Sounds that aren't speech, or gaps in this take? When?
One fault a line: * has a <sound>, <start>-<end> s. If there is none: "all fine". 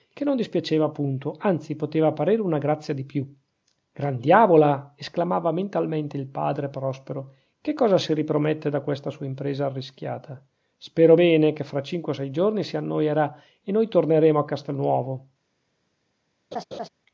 * has a laugh, 16.5-16.9 s